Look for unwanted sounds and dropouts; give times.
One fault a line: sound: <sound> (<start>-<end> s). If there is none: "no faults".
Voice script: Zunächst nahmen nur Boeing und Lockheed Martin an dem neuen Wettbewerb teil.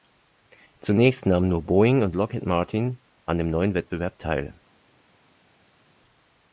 no faults